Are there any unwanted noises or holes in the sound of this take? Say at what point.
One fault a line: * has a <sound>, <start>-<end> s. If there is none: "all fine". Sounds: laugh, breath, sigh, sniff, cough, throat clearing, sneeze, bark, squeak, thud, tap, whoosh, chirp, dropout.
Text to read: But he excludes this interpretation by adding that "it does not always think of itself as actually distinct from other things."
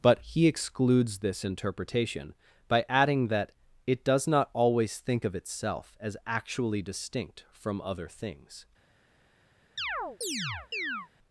* has a chirp, 9.8-11.1 s